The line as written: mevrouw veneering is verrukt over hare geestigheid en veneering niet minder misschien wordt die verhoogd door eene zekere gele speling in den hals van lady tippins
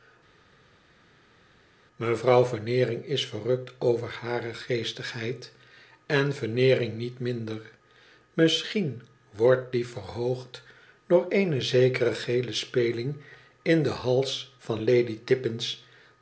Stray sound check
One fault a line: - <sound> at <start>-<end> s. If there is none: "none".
none